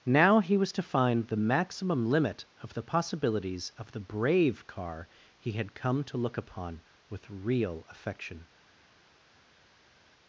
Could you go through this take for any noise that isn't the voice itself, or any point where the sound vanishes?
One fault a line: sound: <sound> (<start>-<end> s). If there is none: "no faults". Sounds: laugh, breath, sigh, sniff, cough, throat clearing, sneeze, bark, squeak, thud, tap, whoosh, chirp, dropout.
no faults